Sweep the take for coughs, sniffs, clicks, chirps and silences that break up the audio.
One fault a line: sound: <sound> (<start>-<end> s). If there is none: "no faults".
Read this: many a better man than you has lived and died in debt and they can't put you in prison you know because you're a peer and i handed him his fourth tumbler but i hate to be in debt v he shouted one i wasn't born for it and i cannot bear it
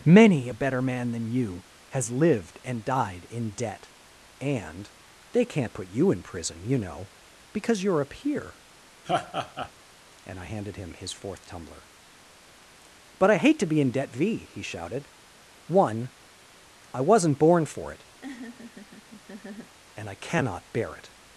sound: laugh (9.0-9.7 s)
sound: laugh (18.2-19.8 s)